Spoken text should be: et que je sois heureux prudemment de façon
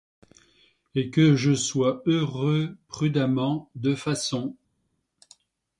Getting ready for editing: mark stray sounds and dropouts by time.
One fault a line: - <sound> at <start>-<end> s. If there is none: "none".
none